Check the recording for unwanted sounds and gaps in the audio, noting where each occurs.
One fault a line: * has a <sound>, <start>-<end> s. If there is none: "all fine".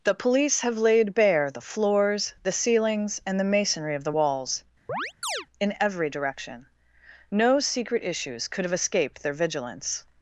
* has a chirp, 4.9-5.5 s